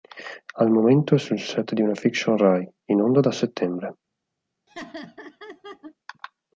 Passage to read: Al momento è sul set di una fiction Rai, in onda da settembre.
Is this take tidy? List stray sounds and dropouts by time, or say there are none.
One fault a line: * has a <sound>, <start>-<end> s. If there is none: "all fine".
* has a laugh, 4.7-5.9 s